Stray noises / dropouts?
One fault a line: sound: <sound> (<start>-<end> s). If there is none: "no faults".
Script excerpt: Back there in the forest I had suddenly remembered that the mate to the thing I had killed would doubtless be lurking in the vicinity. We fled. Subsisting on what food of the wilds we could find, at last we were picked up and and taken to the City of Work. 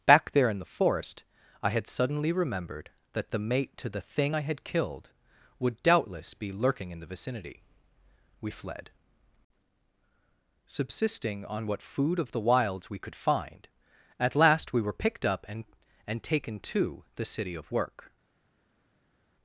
no faults